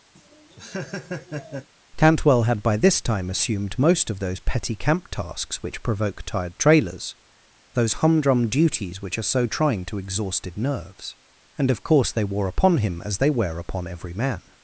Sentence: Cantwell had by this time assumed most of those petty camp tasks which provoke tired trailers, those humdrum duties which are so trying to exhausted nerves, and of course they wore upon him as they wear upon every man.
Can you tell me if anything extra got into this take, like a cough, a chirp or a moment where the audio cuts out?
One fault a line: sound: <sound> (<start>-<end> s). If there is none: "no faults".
sound: laugh (0.1-1.7 s)